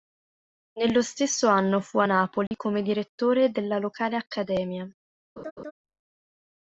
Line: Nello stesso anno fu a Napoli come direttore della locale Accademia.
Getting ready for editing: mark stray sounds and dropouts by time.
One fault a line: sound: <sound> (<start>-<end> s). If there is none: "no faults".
sound: dropout (2.5-2.5 s)
sound: laugh (5.4-5.7 s)